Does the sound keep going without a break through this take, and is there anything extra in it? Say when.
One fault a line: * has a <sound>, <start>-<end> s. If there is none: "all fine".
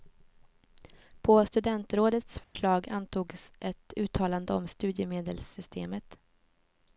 * has a dropout, 2.4-2.6 s